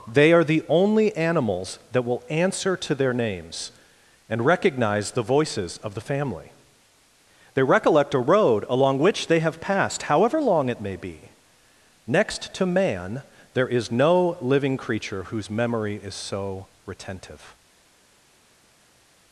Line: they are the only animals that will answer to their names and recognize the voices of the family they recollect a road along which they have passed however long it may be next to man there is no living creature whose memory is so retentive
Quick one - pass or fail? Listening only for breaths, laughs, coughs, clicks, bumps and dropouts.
pass